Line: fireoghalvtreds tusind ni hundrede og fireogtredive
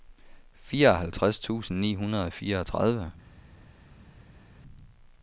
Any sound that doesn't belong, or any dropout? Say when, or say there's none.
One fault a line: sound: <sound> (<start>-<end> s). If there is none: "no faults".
no faults